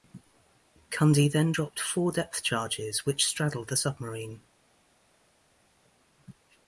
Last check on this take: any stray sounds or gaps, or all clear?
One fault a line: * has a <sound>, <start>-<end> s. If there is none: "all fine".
all fine